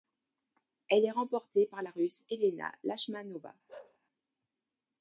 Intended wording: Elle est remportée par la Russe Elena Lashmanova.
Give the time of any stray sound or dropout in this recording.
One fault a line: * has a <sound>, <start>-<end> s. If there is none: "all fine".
* has a bark, 3.7-4.0 s